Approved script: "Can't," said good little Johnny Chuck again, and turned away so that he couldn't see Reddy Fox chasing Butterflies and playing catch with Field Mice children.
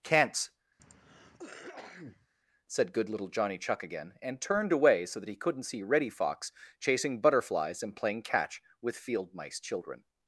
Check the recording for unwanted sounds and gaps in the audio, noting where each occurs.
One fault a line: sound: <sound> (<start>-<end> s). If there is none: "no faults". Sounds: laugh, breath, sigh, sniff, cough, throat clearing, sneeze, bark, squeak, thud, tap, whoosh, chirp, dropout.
sound: cough (0.8-2.3 s)